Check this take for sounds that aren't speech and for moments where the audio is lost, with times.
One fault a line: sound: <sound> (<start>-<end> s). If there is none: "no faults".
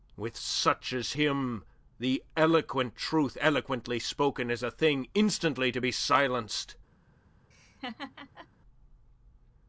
sound: laugh (7.5-8.5 s)